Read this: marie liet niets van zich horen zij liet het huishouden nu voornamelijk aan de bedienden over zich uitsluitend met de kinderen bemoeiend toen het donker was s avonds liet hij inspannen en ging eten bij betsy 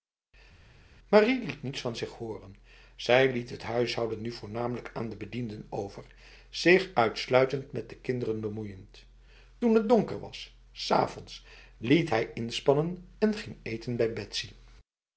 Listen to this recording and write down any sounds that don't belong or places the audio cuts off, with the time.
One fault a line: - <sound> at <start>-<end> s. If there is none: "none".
none